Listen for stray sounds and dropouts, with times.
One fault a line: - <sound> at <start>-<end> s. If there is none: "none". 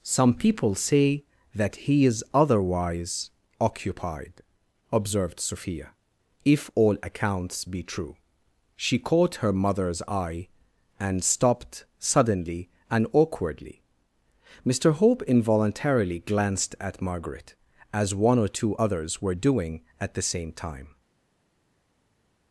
none